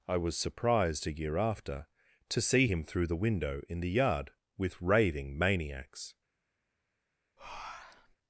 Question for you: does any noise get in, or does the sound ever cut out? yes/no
yes